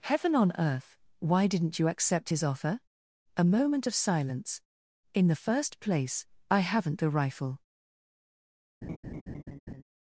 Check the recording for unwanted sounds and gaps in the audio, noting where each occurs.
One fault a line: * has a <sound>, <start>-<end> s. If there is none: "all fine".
* has a laugh, 8.8-9.8 s